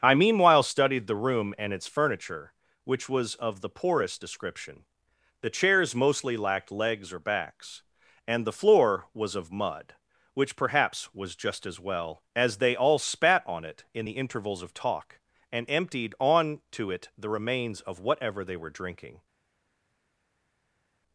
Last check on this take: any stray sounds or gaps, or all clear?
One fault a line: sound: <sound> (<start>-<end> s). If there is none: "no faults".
no faults